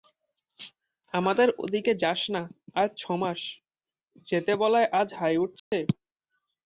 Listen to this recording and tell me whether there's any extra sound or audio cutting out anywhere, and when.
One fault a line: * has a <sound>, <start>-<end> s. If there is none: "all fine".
* has a dropout, 5.6-5.7 s